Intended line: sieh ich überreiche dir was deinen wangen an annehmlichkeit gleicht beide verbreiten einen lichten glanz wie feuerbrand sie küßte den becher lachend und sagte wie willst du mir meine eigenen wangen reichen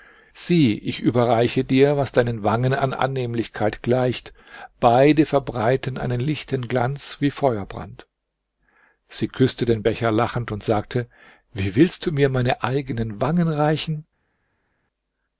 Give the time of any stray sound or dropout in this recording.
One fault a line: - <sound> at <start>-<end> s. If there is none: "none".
none